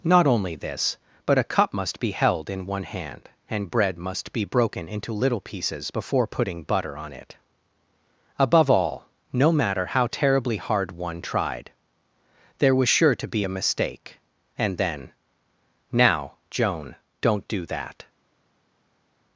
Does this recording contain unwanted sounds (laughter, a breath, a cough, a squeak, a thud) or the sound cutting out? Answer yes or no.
no